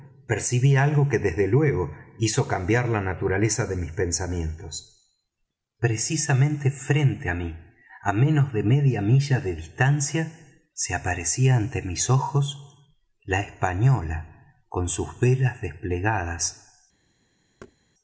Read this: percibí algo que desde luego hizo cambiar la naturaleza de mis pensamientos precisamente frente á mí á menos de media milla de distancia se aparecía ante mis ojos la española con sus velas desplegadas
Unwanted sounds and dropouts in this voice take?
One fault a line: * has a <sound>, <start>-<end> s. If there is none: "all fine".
* has a thud, 17.6-17.8 s